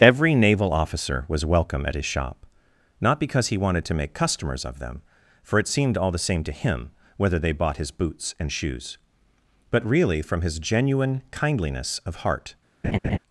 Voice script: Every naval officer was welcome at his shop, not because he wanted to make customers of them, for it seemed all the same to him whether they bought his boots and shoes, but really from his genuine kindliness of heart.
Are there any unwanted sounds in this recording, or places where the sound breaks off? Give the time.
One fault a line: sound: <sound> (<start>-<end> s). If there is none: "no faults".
sound: laugh (12.8-13.2 s)